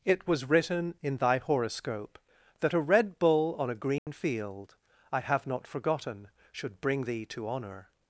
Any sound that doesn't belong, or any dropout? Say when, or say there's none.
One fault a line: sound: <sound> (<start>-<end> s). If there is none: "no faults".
sound: dropout (4.0-4.1 s)